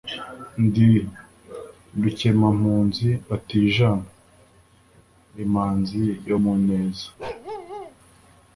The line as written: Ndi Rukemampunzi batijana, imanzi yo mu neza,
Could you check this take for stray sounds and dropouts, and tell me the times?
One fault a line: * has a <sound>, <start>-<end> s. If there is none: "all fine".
* has a bark, 7.2-8.0 s